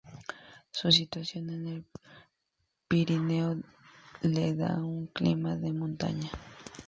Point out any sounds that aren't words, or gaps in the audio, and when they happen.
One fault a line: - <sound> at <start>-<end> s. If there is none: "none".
none